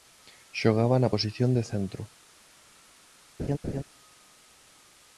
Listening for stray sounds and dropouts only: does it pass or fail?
fail